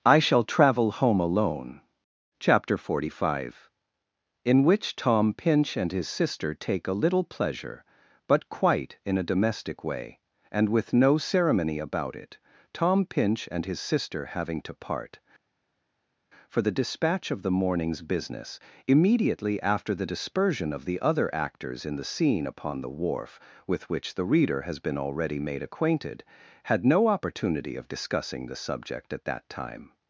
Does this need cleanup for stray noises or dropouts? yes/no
no